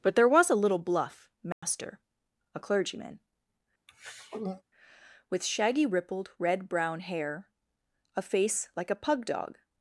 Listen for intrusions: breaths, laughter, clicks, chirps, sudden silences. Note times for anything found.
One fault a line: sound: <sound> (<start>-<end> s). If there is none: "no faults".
sound: dropout (1.5-1.6 s)
sound: throat clearing (3.9-4.6 s)